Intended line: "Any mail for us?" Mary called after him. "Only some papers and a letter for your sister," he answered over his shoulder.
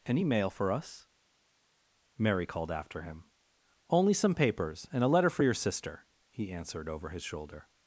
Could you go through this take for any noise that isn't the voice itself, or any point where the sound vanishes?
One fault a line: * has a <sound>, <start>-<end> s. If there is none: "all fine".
all fine